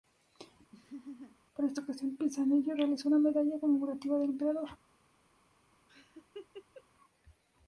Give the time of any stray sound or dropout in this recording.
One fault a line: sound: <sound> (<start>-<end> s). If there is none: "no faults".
sound: laugh (0.7-1.4 s)
sound: laugh (5.9-6.8 s)